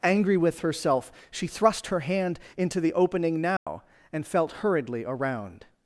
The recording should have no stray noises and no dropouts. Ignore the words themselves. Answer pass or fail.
fail